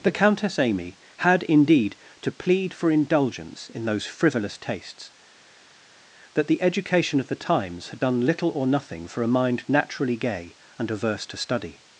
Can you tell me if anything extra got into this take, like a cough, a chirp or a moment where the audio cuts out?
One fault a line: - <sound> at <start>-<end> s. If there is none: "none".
none